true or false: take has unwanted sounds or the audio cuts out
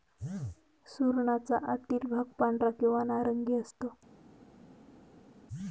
false